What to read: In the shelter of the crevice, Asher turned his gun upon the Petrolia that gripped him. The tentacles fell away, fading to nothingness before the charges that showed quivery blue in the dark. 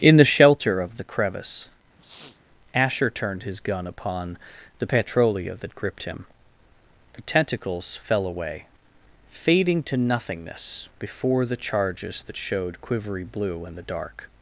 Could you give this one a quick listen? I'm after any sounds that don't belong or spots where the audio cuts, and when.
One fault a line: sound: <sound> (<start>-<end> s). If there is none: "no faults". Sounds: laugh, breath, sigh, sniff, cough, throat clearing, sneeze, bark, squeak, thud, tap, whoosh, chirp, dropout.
sound: sniff (2.0-2.4 s)